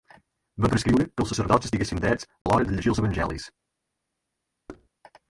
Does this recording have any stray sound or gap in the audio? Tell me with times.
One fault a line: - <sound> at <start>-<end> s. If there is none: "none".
- dropout at 2.4-2.5 s
- thud at 4.7-4.9 s